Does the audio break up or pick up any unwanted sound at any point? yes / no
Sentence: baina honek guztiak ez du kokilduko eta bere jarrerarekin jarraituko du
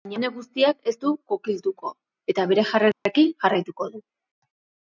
yes